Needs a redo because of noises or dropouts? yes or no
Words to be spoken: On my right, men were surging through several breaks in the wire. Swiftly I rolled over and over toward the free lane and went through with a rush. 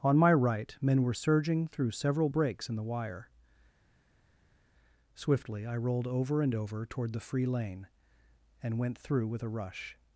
no